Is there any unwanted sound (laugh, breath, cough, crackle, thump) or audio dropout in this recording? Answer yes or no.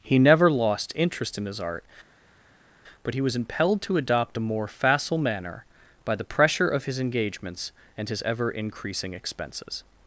no